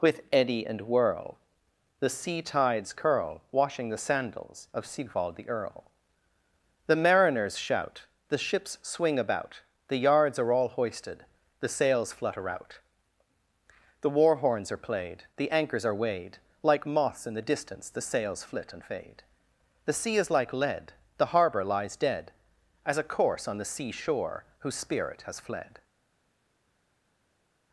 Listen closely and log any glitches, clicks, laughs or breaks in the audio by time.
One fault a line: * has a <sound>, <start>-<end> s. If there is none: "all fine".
all fine